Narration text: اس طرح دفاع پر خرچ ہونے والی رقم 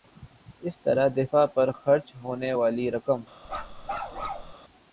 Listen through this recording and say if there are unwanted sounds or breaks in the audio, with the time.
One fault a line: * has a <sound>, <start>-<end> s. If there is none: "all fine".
* has a bark, 3.4-4.5 s